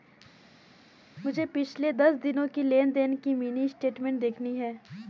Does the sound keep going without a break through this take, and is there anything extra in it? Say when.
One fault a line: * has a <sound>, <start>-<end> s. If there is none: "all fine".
all fine